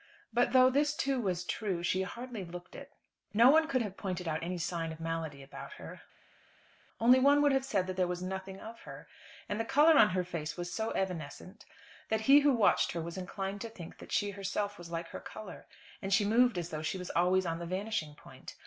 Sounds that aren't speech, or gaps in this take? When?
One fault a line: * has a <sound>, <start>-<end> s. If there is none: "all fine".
all fine